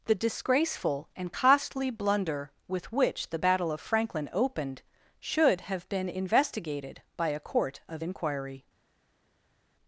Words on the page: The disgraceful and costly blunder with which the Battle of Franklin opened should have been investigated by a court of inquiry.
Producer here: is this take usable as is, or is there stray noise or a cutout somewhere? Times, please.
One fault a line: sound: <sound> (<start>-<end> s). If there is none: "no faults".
no faults